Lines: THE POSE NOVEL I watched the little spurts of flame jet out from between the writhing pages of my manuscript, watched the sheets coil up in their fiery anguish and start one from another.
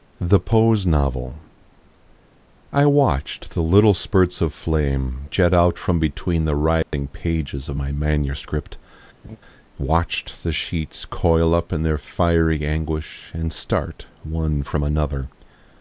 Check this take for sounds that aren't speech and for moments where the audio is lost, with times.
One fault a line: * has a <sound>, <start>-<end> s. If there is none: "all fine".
* has a dropout, 6.8-6.9 s
* has a laugh, 9.2-9.4 s